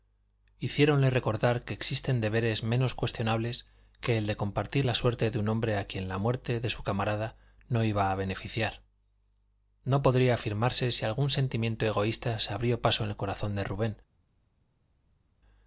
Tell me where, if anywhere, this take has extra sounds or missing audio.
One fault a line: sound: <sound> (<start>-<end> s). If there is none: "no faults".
no faults